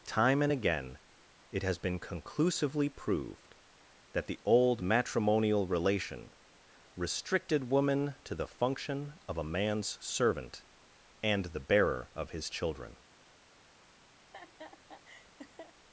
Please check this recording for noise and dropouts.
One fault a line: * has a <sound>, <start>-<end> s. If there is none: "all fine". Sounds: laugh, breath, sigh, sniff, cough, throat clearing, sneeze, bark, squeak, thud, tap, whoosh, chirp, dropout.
* has a laugh, 14.2-15.8 s